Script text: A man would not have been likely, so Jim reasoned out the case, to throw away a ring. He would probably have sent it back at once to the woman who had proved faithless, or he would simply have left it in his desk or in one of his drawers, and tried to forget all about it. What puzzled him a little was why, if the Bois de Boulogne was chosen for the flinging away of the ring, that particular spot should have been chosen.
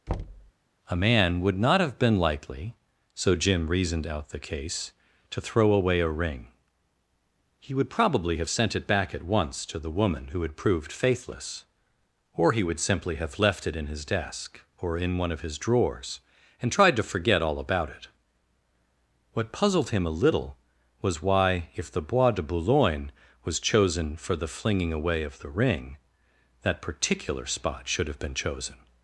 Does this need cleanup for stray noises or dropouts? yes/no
yes